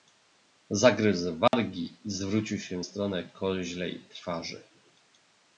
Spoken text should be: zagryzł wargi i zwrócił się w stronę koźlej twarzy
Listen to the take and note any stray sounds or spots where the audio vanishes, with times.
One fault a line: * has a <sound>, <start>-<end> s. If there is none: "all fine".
* has a dropout, 1.5-1.5 s